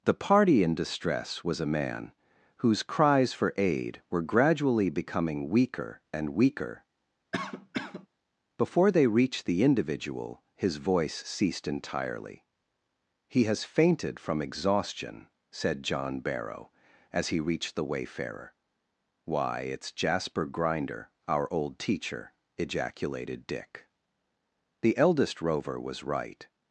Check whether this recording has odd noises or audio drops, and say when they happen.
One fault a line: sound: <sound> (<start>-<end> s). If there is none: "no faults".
sound: cough (7.3-8.1 s)